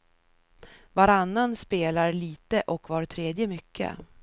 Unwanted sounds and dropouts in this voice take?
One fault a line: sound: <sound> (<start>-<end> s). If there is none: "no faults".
no faults